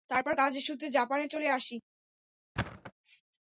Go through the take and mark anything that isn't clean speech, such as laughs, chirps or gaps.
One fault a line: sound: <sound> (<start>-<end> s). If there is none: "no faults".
sound: thud (2.6-2.9 s)